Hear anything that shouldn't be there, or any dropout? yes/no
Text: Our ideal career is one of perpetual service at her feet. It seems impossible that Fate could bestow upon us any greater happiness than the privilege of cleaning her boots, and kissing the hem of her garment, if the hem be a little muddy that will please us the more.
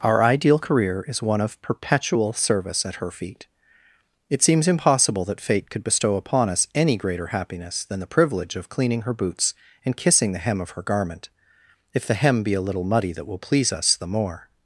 no